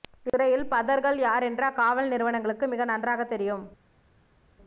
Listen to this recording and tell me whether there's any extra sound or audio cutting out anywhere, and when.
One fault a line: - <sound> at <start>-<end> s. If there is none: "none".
none